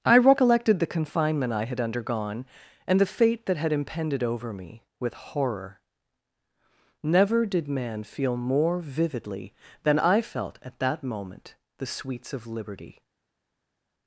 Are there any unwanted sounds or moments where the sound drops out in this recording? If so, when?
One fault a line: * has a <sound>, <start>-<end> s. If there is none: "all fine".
all fine